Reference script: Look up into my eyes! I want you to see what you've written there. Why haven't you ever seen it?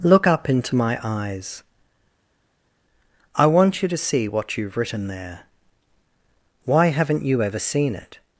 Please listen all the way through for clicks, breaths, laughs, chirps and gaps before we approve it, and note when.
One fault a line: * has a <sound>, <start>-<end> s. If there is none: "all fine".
all fine